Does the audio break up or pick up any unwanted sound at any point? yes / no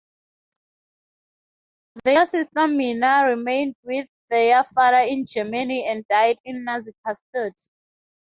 no